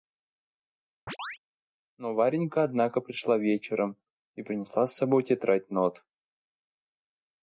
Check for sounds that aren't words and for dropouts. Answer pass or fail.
fail